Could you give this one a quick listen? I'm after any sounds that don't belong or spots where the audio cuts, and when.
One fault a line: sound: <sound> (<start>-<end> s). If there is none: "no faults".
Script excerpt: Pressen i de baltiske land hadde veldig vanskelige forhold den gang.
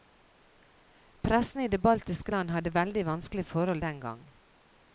no faults